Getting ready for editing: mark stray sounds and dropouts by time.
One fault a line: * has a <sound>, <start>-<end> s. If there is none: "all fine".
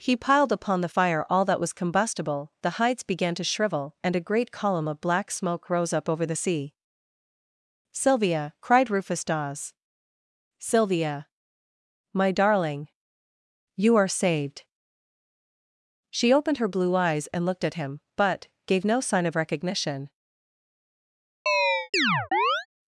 * has a chirp, 21.5-22.7 s